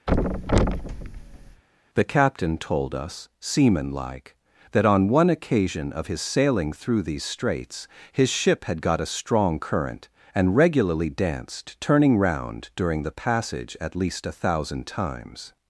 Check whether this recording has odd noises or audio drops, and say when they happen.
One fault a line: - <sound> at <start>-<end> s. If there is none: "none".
- thud at 0.1-1.6 s